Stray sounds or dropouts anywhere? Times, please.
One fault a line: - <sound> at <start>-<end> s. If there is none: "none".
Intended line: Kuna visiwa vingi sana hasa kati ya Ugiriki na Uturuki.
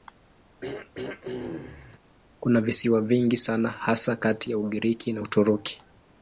- throat clearing at 0.6-2.0 s